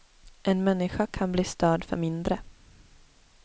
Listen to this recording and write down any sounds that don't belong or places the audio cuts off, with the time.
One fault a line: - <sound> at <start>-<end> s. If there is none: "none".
none